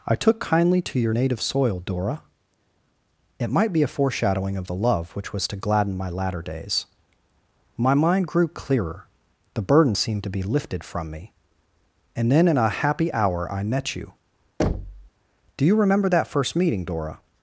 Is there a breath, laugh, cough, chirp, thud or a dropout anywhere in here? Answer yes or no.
yes